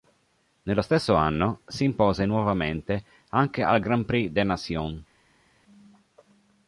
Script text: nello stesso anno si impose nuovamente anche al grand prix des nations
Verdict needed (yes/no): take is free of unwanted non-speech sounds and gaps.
yes